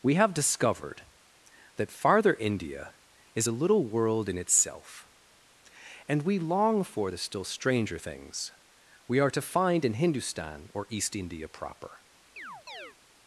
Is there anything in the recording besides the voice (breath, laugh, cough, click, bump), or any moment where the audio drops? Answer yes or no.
yes